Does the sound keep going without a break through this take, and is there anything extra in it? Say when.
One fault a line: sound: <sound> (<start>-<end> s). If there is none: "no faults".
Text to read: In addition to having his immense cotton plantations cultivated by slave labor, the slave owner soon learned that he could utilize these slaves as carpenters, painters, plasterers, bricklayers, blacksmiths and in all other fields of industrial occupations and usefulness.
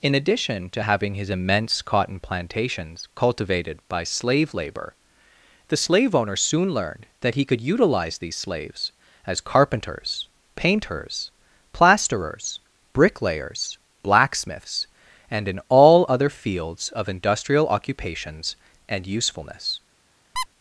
sound: squeak (20.4-20.5 s)